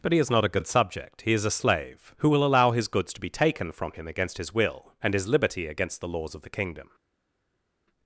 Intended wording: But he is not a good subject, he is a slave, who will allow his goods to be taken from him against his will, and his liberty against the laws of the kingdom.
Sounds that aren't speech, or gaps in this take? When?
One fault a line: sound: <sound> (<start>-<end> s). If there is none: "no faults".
no faults